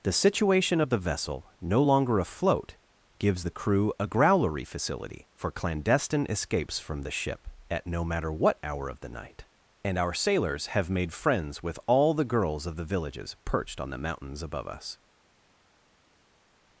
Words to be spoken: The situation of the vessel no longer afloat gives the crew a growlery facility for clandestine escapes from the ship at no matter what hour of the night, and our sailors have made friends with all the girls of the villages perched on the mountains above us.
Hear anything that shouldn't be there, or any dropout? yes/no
no